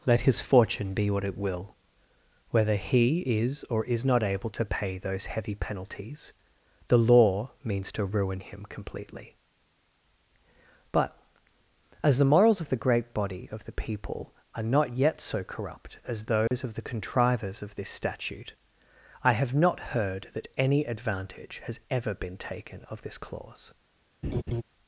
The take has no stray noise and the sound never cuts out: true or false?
false